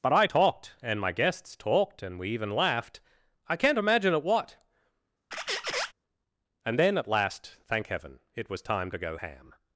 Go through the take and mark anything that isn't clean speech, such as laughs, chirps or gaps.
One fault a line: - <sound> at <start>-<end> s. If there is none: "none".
- squeak at 5.3-5.9 s